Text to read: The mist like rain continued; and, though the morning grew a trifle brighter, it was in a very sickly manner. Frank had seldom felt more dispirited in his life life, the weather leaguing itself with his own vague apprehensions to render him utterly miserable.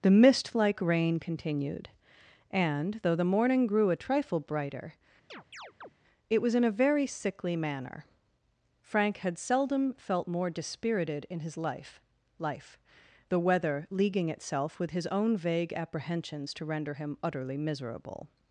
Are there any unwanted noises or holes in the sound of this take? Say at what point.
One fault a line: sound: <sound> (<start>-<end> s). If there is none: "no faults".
sound: chirp (5.3-5.9 s)